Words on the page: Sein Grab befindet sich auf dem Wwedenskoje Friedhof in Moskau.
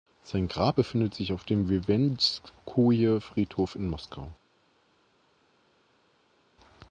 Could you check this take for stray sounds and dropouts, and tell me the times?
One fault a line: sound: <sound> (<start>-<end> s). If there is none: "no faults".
no faults